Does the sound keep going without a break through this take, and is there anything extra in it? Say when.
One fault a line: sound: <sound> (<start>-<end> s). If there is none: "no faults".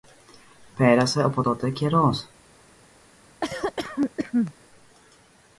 sound: cough (3.4-4.5 s)